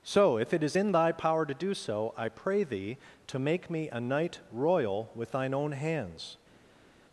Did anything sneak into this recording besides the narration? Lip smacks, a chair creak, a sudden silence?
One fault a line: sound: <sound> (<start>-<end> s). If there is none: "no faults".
no faults